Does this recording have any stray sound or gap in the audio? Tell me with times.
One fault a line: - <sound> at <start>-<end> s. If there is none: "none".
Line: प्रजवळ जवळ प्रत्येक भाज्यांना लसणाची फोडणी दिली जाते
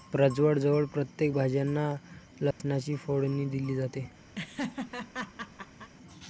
- dropout at 2.5-2.6 s
- laugh at 4.3-5.9 s